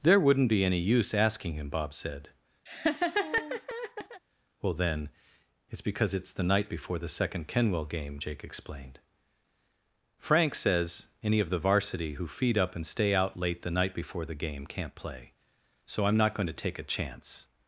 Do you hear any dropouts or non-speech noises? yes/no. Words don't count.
yes